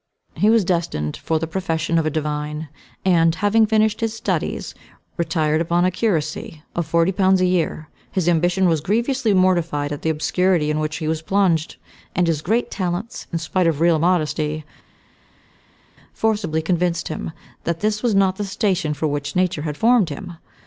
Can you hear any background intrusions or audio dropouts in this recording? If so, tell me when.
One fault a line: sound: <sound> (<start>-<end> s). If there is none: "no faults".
no faults